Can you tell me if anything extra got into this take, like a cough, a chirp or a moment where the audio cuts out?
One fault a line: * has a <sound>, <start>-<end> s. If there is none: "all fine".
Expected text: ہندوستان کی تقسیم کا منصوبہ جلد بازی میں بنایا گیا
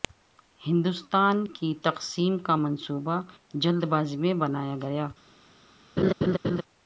* has a laugh, 6.0-6.6 s